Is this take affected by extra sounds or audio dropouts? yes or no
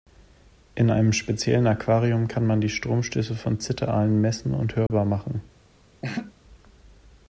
yes